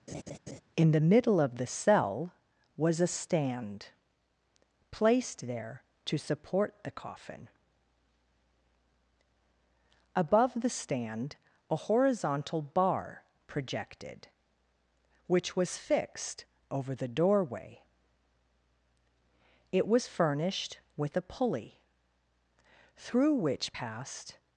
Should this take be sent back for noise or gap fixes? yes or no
yes